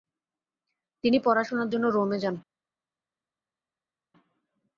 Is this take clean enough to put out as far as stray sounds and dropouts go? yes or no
yes